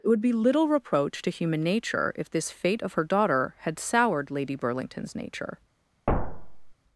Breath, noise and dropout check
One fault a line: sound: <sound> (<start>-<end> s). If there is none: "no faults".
sound: thud (6.1-6.7 s)